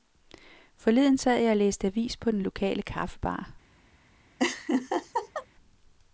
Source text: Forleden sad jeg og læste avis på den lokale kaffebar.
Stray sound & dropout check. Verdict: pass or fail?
fail